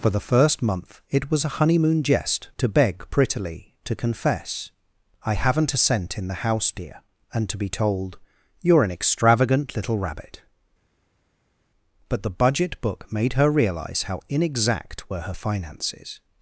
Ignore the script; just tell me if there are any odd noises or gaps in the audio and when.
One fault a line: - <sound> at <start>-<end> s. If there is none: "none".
none